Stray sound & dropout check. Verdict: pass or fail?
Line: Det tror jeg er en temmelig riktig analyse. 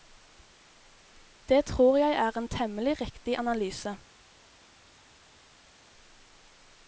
pass